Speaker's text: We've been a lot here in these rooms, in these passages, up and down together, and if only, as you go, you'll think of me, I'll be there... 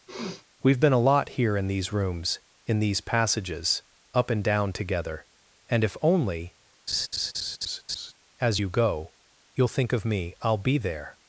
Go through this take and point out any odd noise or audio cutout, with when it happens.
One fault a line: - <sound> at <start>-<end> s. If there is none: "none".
- sniff at 0.1-0.4 s
- laugh at 6.9-8.1 s